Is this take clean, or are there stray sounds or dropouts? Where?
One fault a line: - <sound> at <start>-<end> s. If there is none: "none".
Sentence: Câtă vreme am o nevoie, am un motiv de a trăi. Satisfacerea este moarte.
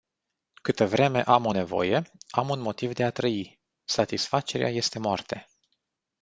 none